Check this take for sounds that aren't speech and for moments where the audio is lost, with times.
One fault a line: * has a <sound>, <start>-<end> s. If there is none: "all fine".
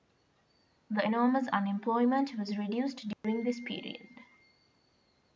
* has a dropout, 3.1-3.2 s